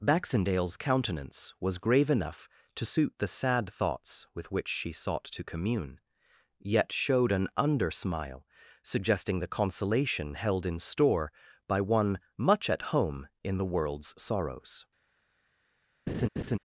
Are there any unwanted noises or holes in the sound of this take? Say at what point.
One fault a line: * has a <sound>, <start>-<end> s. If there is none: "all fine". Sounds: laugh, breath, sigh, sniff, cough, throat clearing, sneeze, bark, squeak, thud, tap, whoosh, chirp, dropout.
* has a laugh, 16.1-16.6 s